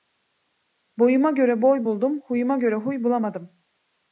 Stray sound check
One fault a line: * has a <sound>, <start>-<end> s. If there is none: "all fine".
all fine